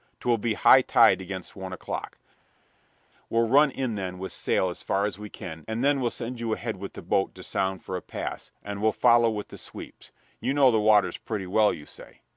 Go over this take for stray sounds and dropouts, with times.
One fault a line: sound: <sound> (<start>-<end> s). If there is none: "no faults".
no faults